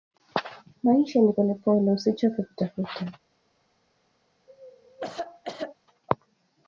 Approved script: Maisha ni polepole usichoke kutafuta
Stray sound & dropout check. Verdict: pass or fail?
fail